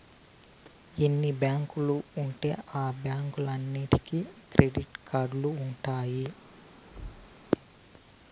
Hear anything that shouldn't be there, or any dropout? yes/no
yes